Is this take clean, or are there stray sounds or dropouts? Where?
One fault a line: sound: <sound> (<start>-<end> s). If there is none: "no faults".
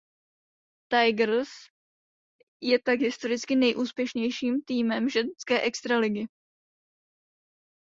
no faults